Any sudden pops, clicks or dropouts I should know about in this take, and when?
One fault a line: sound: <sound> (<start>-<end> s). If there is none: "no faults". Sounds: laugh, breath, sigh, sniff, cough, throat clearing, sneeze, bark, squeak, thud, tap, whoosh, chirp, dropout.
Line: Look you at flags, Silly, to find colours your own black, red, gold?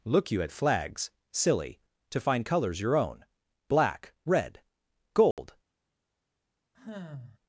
sound: dropout (5.3-5.4 s)
sound: sigh (6.7-7.4 s)